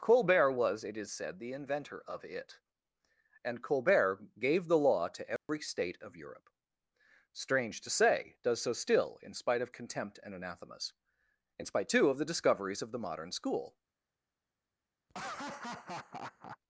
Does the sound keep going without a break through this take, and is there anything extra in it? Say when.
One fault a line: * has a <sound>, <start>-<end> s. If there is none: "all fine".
* has a dropout, 5.4-5.5 s
* has a laugh, 15.1-16.6 s